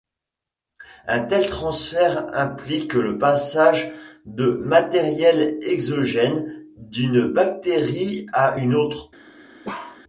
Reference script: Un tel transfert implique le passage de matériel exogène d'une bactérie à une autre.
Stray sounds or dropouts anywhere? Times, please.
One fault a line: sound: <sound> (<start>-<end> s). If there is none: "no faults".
sound: bark (9.6-10.0 s)